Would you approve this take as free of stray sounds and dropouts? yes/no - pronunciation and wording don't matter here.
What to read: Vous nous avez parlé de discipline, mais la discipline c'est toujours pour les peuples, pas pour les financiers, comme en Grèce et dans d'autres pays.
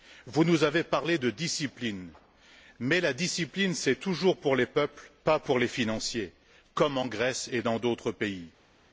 yes